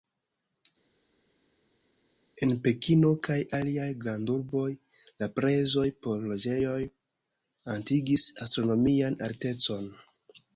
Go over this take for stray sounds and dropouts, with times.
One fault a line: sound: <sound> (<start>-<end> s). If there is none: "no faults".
no faults